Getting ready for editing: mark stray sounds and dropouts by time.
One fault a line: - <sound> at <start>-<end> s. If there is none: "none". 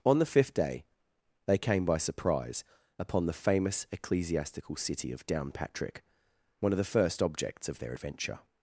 none